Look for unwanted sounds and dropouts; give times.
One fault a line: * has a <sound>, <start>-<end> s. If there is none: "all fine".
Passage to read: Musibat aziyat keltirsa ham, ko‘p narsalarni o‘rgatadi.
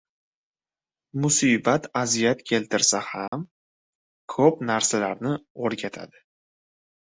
* has a dropout, 3.3-3.3 s